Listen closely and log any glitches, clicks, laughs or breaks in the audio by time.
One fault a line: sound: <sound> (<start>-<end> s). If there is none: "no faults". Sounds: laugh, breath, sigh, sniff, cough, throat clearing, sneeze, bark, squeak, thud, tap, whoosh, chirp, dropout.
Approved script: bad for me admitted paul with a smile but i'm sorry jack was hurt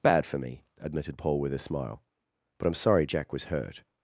no faults